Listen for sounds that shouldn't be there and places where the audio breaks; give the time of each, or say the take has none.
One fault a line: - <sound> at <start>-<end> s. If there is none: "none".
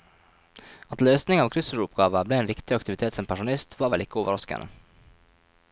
none